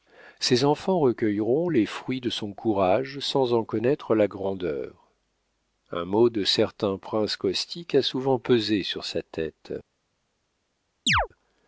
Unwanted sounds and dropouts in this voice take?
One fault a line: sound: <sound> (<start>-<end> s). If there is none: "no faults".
sound: chirp (11.1-11.3 s)